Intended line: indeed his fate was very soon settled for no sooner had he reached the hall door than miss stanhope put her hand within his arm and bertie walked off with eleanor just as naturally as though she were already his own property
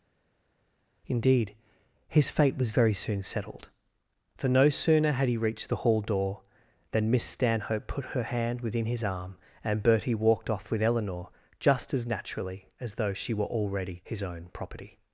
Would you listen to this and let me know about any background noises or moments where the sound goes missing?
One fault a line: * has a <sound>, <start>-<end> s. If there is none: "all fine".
all fine